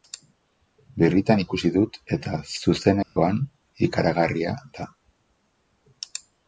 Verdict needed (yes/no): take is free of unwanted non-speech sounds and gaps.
no